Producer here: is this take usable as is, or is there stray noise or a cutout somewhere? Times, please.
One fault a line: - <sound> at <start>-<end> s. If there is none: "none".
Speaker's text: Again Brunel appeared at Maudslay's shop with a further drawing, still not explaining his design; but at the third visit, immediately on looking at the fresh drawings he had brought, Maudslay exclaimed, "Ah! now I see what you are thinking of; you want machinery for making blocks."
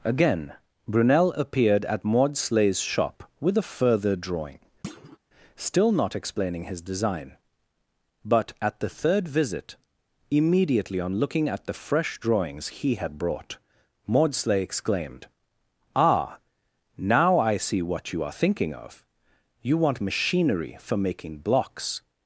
- thud at 4.8-5.2 s